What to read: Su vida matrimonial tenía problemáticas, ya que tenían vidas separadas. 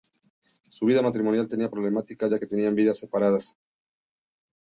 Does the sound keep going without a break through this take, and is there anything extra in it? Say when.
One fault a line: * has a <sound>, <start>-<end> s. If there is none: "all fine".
all fine